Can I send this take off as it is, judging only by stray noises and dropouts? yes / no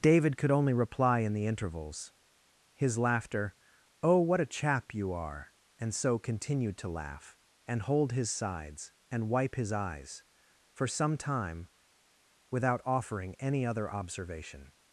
yes